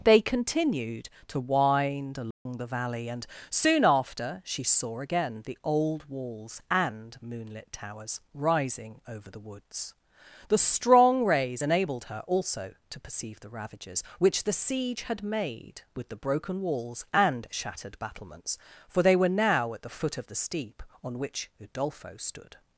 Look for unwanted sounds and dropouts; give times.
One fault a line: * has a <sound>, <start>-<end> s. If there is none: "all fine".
* has a dropout, 2.3-2.5 s